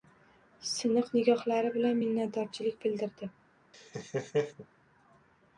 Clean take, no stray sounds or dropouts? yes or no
no